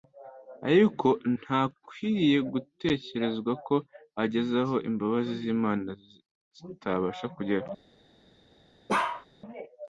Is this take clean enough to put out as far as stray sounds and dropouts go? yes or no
no